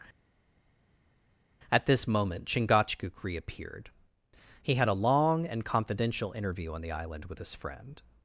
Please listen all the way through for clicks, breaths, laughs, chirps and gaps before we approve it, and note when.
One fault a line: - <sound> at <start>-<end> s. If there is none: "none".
none